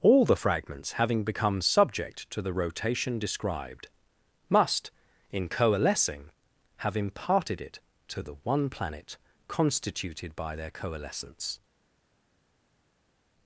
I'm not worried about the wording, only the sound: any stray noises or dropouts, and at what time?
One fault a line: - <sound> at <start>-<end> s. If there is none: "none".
none